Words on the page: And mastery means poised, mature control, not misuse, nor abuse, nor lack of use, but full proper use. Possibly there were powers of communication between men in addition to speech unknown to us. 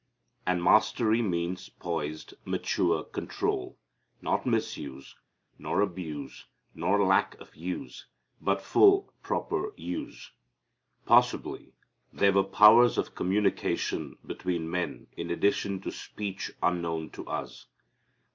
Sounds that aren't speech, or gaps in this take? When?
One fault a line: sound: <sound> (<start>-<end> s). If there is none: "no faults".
no faults